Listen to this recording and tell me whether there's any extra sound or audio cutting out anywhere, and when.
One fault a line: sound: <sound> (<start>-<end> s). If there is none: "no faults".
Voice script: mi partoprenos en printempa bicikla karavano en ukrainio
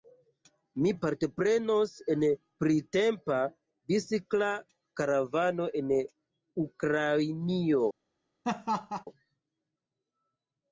sound: laugh (8.4-9.0 s)